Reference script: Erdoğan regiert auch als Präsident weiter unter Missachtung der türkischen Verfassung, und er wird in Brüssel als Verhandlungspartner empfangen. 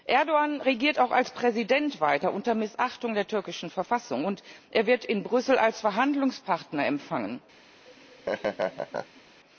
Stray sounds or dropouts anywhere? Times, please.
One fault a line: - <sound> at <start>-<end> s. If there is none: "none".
- laugh at 7.9-9.2 s